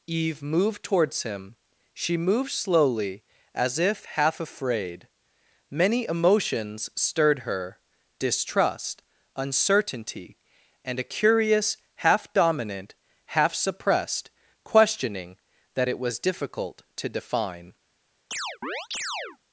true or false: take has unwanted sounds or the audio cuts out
true